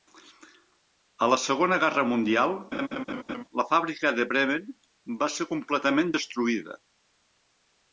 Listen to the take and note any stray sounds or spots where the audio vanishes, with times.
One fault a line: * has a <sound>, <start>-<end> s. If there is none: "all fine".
* has a laugh, 2.7-3.4 s